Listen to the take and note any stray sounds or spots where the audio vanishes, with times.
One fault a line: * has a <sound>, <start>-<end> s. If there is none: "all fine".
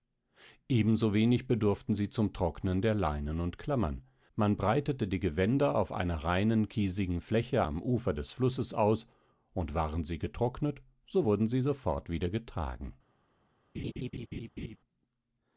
* has a laugh, 13.7-14.8 s